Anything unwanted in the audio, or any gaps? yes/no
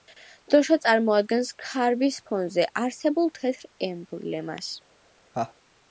yes